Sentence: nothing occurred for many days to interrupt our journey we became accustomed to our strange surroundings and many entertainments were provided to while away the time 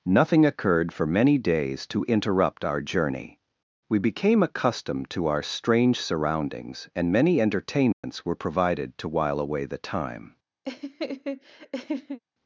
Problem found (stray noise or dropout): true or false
true